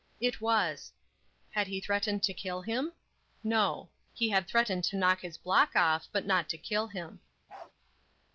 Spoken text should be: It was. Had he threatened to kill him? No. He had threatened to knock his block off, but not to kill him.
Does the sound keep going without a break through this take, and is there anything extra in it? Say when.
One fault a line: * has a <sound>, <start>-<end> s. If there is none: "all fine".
* has a bark, 7.5-7.7 s